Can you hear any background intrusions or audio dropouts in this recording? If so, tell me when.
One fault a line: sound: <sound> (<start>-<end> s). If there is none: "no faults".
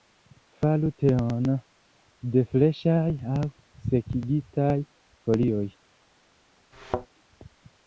sound: thud (6.7-7.1 s)